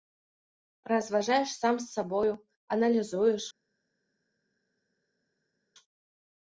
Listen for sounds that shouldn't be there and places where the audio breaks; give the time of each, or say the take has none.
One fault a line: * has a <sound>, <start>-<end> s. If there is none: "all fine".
all fine